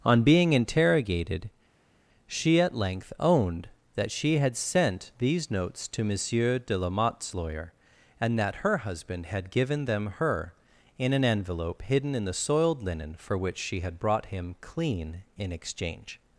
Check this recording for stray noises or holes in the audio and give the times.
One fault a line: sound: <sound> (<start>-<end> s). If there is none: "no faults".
no faults